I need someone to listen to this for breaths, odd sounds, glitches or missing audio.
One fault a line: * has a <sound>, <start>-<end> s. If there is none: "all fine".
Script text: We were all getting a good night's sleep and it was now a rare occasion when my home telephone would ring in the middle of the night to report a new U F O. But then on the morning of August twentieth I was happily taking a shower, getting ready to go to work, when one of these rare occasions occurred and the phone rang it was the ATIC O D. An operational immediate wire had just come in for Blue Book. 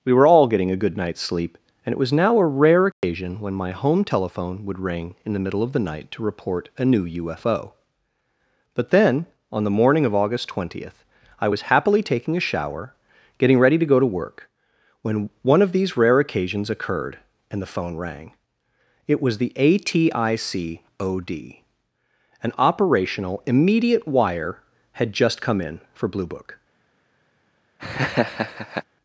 * has a dropout, 2.9-3.0 s
* has a laugh, 27.8-28.8 s